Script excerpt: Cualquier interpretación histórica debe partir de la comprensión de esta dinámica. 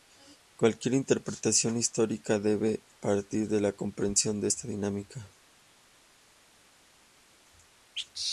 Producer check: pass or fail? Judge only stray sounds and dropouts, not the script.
pass